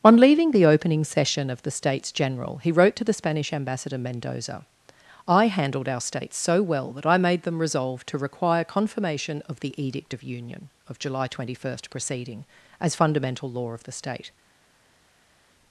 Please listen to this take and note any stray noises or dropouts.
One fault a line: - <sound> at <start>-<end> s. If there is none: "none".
none